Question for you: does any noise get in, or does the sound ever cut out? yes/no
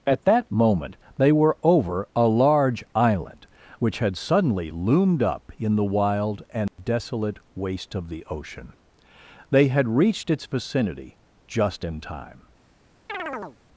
yes